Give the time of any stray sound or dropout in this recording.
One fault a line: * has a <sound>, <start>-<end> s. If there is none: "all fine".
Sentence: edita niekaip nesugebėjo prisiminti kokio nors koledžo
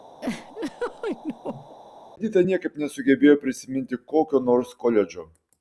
* has a laugh, 0.2-1.8 s